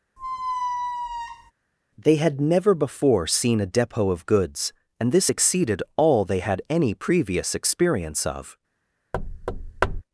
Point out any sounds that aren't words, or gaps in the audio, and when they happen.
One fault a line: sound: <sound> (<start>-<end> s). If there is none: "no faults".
sound: squeak (0.2-1.5 s)
sound: thud (9.1-10.0 s)